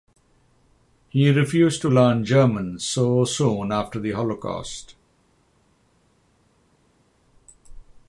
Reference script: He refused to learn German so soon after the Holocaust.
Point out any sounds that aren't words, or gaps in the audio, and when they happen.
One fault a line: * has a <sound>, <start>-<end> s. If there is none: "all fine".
all fine